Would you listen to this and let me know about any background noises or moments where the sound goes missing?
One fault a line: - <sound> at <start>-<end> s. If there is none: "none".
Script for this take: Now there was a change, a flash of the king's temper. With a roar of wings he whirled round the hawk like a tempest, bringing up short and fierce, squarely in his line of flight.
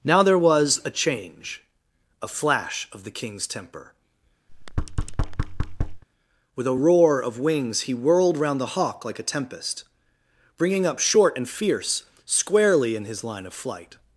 - thud at 4.5-6.0 s